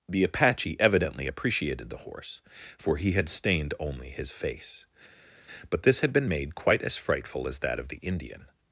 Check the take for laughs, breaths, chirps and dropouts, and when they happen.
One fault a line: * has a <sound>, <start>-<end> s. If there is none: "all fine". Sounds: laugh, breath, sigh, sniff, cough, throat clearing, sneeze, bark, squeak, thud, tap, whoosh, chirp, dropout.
all fine